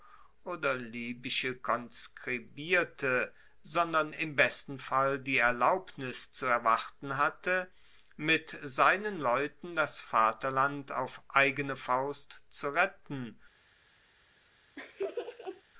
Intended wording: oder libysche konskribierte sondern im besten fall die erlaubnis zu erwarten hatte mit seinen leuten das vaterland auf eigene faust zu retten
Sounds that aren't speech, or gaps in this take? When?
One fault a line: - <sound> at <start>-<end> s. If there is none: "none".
- laugh at 14.8-15.6 s